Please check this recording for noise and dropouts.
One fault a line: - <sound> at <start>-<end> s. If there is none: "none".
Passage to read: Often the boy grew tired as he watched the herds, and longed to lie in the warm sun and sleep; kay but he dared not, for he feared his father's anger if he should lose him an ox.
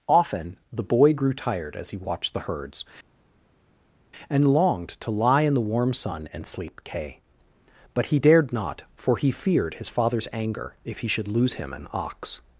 none